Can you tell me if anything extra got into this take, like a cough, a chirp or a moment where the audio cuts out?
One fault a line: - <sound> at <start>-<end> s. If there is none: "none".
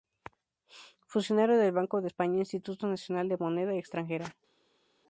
none